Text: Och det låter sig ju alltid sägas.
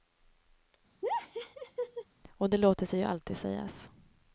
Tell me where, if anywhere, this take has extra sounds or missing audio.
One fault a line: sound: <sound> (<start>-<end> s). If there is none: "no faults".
sound: laugh (1.0-2.0 s)